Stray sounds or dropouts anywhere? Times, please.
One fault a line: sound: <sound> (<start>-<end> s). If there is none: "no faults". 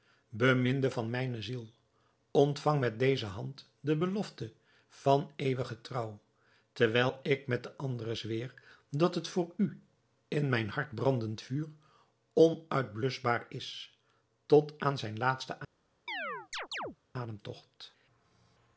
sound: chirp (16.1-17.0 s)